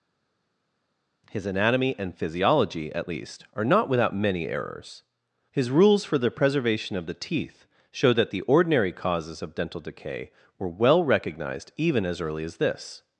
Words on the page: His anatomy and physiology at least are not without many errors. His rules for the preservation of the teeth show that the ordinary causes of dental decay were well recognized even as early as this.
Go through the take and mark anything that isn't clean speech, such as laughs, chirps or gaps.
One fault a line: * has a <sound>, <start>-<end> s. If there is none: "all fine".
all fine